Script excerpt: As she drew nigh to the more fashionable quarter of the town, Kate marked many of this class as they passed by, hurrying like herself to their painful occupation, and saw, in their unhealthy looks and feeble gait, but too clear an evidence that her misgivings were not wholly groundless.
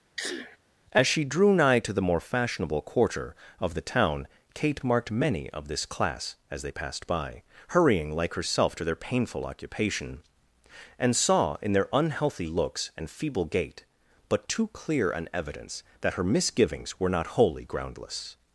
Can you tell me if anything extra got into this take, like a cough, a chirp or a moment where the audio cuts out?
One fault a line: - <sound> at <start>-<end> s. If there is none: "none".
- sneeze at 0.2-0.6 s